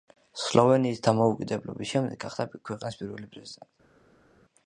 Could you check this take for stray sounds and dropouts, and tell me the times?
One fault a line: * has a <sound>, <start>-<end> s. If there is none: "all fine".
all fine